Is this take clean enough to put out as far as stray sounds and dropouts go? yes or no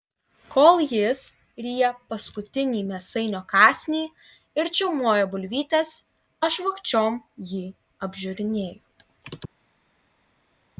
yes